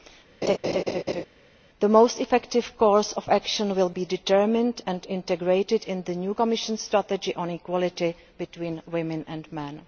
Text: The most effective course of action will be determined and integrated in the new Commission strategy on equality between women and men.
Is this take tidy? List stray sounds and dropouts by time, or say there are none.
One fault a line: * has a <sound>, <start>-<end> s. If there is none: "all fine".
* has a laugh, 0.4-1.3 s